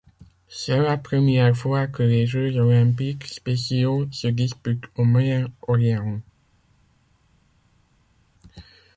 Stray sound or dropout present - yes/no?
no